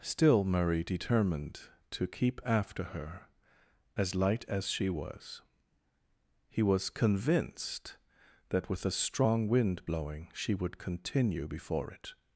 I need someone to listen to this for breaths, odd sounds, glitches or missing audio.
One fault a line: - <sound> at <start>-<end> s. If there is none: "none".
none